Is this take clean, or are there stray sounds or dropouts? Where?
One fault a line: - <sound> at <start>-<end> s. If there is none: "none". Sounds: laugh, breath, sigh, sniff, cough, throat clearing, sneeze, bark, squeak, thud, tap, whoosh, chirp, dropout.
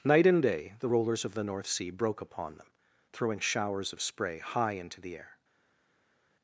none